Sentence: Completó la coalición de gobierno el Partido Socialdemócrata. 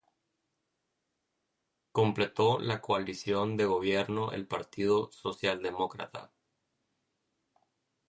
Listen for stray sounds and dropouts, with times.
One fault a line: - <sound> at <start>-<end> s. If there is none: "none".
none